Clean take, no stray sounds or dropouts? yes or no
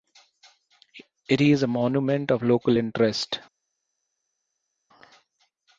yes